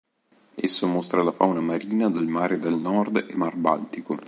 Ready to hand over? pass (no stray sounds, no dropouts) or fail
pass